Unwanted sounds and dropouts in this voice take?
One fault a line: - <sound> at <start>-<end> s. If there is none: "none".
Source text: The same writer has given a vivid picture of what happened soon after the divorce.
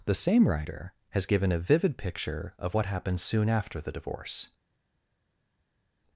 none